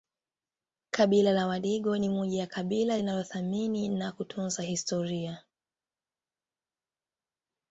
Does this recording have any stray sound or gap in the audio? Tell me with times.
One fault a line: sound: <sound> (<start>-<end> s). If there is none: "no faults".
no faults